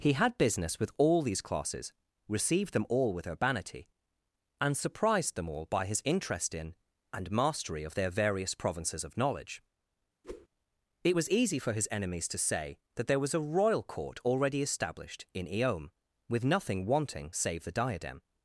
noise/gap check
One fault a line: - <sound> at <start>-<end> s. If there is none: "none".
- whoosh at 10.2-10.5 s